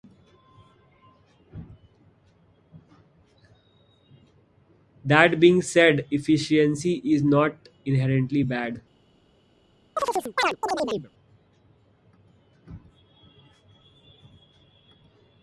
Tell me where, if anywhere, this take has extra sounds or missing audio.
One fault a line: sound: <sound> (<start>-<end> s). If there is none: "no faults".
sound: chirp (10.0-11.1 s)